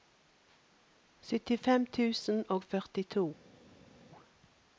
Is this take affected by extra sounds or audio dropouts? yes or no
no